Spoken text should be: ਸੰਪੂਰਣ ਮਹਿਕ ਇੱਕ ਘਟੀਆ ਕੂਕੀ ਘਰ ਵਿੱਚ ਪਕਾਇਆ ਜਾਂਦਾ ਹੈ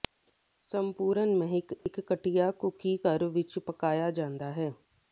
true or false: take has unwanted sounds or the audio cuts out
true